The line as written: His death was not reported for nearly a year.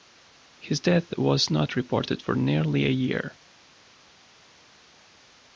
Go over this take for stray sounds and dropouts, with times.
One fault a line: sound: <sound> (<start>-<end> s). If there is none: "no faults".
no faults